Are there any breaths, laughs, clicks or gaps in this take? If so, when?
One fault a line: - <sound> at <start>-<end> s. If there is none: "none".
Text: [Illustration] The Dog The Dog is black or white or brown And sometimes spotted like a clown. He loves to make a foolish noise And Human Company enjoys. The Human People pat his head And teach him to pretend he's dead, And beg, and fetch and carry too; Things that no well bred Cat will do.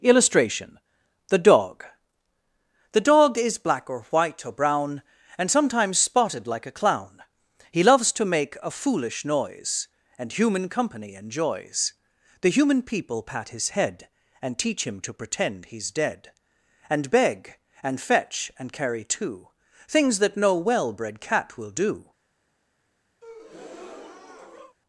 - breath at 23.2-24.8 s